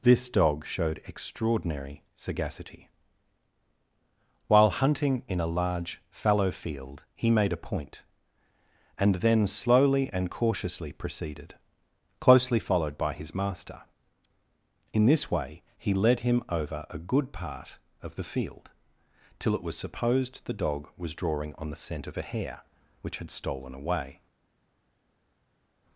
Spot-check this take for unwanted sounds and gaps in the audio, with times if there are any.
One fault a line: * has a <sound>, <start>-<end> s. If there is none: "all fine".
all fine